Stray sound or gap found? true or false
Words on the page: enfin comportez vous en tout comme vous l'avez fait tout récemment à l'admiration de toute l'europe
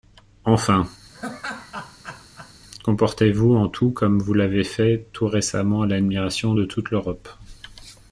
true